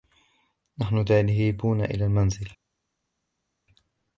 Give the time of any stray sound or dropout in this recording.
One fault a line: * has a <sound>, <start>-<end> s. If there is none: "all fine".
all fine